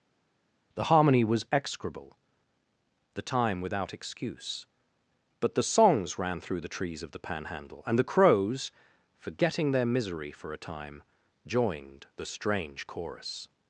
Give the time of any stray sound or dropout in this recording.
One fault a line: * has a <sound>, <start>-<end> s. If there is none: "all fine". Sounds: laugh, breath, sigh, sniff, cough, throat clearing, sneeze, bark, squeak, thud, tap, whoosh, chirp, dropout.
all fine